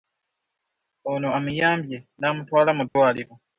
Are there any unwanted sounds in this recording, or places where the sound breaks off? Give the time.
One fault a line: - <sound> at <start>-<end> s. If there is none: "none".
- dropout at 2.9-3.0 s